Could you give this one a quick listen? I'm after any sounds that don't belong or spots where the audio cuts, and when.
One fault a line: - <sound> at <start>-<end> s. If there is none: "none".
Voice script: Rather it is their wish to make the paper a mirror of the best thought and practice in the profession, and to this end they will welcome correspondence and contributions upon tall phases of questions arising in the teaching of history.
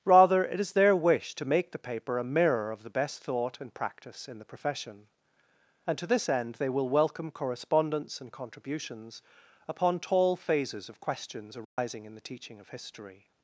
- dropout at 11.6-11.8 s